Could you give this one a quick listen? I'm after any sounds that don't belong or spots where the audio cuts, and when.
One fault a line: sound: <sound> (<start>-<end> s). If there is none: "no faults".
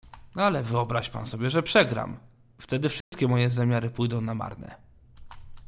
sound: dropout (3.0-3.1 s)